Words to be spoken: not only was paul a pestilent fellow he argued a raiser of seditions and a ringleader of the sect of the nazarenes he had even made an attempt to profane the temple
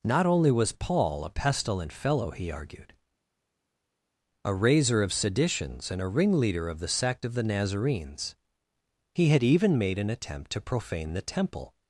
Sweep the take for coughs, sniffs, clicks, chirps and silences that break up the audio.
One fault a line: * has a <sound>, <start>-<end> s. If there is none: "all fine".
all fine